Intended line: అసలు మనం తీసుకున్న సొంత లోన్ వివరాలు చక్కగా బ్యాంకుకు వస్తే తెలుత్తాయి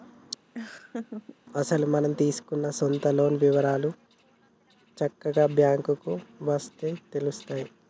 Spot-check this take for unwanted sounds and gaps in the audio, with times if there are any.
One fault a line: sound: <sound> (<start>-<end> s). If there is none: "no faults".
sound: laugh (0.5-1.4 s)